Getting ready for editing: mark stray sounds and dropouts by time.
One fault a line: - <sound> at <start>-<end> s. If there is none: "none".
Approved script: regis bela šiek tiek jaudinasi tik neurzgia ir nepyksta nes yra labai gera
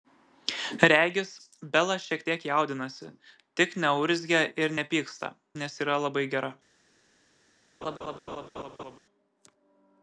- laugh at 7.8-9.0 s